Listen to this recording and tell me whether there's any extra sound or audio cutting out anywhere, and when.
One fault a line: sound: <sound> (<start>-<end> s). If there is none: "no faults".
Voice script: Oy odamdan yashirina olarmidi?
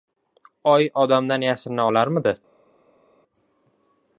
no faults